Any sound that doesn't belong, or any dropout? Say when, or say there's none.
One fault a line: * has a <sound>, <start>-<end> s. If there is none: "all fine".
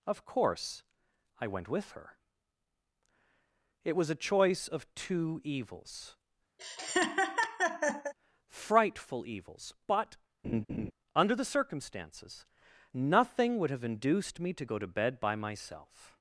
* has a laugh, 6.6-8.1 s
* has a laugh, 10.4-10.9 s